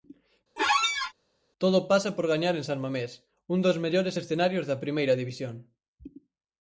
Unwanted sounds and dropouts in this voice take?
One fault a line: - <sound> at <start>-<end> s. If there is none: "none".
- squeak at 0.6-1.1 s